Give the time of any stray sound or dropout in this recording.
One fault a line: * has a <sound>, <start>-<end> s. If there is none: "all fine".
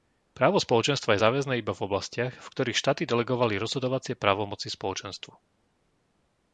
all fine